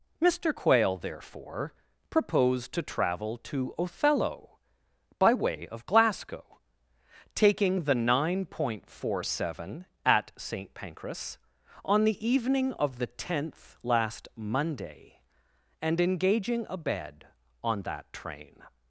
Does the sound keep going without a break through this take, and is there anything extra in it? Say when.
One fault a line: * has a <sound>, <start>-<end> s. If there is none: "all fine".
all fine